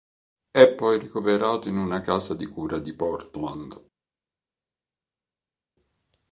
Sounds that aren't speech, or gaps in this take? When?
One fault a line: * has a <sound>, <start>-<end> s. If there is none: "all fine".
all fine